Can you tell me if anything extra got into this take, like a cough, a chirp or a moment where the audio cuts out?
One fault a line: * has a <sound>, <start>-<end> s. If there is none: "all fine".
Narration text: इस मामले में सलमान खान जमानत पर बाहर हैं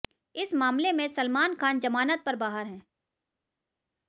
all fine